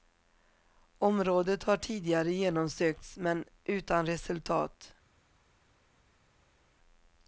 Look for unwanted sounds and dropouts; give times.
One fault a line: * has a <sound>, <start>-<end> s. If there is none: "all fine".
all fine